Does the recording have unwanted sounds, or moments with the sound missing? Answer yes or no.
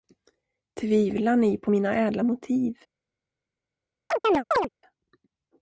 yes